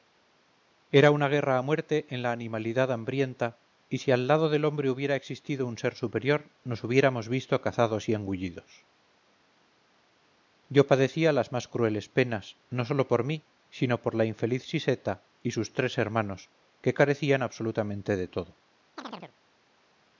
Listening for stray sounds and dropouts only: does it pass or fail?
fail